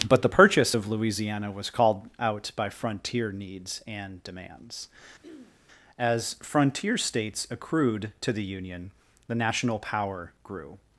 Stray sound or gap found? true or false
true